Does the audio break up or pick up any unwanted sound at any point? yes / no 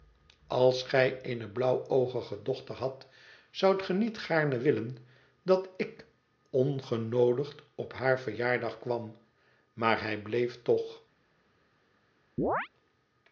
yes